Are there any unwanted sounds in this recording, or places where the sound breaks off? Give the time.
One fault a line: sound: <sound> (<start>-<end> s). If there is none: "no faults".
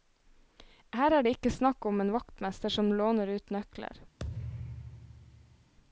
sound: thud (4.2-5.7 s)